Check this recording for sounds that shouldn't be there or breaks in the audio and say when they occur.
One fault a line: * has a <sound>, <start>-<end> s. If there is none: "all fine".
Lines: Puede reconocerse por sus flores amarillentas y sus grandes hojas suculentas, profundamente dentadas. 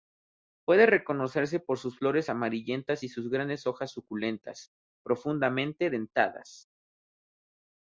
all fine